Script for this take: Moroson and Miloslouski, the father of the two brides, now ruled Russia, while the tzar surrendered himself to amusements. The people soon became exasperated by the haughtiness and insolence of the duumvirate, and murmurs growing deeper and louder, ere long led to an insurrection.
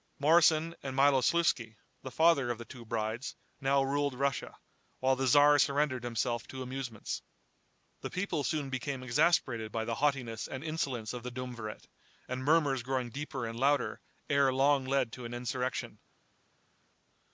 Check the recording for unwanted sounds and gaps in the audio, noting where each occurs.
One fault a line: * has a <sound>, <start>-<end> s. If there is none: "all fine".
all fine